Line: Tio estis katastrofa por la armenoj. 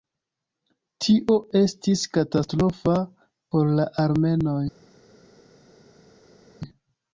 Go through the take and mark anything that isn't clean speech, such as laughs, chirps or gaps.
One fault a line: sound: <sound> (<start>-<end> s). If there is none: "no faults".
no faults